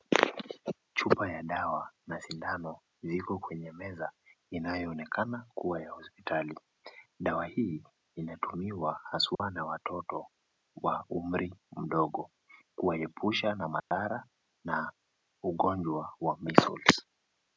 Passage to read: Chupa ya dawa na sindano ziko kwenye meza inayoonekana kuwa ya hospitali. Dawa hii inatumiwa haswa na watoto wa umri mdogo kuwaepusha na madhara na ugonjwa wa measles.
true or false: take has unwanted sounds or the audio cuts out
true